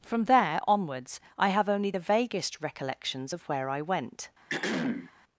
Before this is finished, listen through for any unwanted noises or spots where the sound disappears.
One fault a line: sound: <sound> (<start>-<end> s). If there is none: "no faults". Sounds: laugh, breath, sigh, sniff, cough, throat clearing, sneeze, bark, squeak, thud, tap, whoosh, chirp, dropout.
sound: throat clearing (4.5-5.1 s)